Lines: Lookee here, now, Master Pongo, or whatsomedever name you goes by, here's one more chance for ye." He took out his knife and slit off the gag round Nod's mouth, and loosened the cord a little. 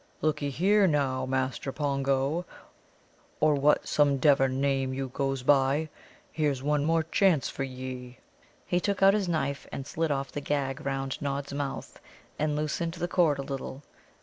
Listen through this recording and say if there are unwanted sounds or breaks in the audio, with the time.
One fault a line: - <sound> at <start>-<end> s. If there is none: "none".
none